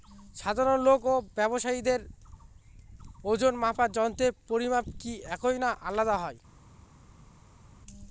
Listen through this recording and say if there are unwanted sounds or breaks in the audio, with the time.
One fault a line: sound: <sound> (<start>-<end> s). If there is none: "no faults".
no faults